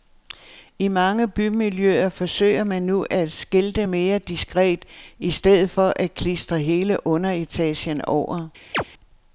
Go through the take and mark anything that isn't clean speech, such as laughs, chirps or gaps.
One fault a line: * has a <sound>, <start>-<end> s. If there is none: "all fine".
* has a chirp, 8.7-8.8 s